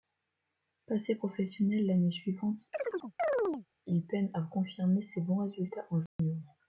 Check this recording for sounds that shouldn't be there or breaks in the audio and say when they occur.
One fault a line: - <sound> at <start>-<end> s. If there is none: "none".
- chirp at 2.7-3.7 s
- dropout at 6.1-6.2 s